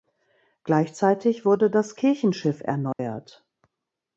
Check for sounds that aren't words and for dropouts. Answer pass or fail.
fail